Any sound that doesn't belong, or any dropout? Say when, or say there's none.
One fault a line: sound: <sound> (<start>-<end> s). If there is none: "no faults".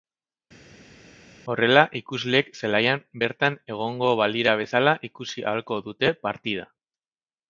no faults